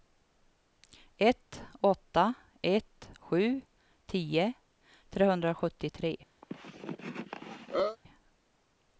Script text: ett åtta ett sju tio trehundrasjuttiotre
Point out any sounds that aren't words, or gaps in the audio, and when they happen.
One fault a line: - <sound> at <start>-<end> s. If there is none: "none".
- cough at 6.4-8.0 s